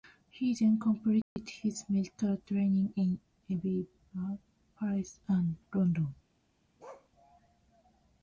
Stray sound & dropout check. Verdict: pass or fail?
fail